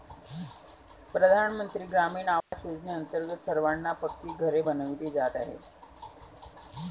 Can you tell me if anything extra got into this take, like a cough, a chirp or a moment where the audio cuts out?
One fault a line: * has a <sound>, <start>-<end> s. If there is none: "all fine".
* has a dropout, 2.4-2.5 s